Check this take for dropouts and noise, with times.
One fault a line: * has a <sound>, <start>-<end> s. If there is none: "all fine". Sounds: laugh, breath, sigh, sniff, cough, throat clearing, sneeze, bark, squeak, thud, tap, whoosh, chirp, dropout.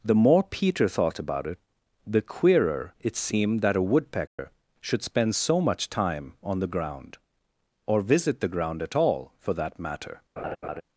* has a dropout, 4.3-4.4 s
* has a laugh, 10.4-10.8 s